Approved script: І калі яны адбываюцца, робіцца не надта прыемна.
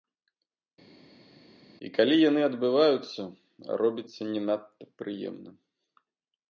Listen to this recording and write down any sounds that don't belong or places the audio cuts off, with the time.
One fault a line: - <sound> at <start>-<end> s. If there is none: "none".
none